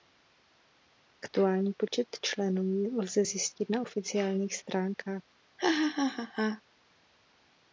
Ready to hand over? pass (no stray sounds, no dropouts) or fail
fail